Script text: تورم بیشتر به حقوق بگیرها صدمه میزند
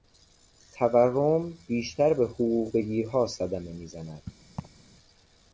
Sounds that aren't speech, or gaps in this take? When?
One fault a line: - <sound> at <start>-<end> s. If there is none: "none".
- laugh at 4.6-4.8 s